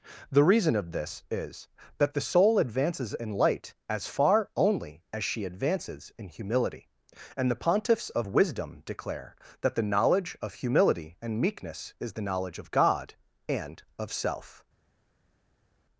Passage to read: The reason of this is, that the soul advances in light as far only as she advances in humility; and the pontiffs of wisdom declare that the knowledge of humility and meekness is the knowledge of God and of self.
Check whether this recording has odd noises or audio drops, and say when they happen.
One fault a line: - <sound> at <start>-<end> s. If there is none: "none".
none